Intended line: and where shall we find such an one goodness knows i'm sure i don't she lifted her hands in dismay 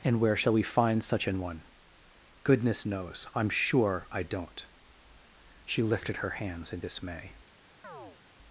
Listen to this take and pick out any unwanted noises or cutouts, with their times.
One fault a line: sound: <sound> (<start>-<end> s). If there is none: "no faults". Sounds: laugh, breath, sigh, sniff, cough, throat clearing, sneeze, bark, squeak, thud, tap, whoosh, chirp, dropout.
sound: chirp (7.8-8.2 s)